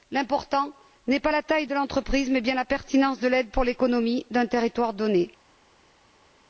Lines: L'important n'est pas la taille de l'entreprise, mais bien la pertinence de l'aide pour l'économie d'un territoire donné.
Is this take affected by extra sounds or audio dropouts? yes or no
no